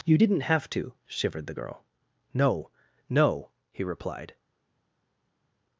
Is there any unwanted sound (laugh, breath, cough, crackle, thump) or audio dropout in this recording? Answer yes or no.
no